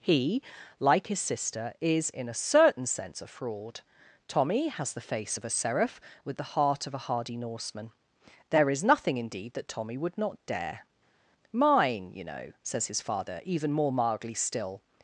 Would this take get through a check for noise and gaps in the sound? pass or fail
pass